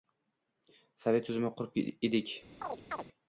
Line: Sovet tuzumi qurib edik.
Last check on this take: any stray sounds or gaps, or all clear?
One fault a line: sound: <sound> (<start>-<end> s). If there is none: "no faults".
sound: chirp (2.6-3.0 s)